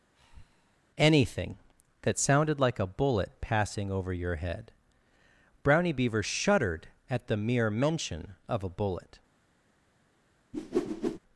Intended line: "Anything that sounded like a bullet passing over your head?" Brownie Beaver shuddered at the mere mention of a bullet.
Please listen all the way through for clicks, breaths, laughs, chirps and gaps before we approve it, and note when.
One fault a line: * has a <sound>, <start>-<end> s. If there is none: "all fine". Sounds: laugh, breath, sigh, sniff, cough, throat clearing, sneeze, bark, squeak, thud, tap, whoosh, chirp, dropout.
* has a breath, 0.1-0.8 s
* has a whoosh, 10.5-11.2 s